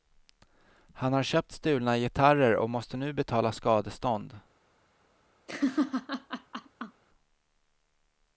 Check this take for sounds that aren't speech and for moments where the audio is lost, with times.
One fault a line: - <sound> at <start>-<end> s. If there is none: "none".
- laugh at 5.5-7.0 s